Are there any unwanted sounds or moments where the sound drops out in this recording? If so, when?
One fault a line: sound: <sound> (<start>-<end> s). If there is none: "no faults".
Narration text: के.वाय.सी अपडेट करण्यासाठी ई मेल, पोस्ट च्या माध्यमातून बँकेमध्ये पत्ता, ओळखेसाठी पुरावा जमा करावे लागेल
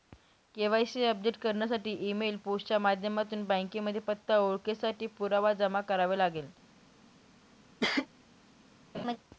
sound: cough (7.8-8.1 s)
sound: laugh (8.9-9.2 s)